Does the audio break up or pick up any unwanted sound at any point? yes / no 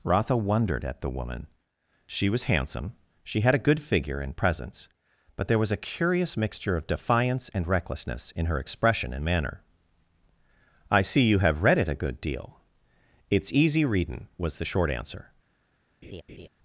yes